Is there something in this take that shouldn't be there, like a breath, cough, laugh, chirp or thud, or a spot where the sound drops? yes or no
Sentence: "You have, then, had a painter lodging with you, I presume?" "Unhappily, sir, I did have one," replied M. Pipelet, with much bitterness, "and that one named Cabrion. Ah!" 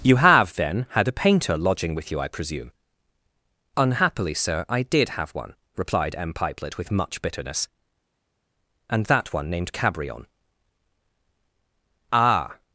no